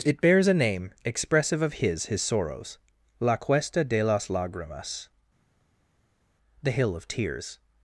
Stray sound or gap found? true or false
false